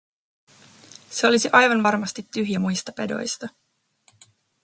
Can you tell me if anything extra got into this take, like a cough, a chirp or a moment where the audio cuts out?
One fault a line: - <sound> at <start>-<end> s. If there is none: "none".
none